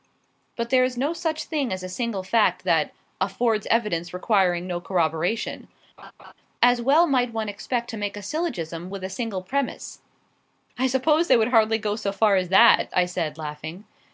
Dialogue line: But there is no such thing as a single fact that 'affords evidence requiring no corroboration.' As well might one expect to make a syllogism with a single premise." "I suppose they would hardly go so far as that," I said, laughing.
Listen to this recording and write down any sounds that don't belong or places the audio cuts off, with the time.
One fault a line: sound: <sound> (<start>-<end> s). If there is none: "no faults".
sound: laugh (6.0-6.3 s)